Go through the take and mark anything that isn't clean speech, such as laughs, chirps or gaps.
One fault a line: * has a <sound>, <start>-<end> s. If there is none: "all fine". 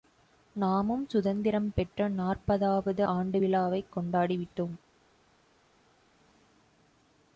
all fine